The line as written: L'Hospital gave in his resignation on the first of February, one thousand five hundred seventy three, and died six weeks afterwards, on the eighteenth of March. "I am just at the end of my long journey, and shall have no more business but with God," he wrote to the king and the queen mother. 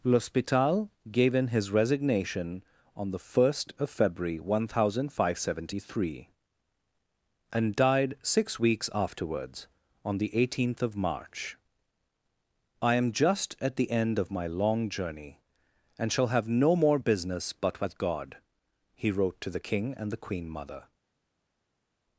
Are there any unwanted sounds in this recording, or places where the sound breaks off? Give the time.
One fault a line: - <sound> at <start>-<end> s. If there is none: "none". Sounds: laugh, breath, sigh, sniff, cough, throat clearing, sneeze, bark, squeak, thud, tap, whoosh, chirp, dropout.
none